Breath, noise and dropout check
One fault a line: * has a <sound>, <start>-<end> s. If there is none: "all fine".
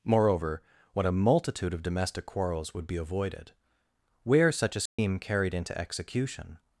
* has a dropout, 4.9-5.0 s